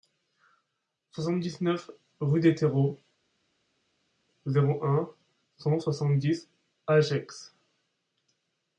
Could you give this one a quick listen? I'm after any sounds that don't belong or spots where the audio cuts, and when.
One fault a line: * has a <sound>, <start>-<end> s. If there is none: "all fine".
all fine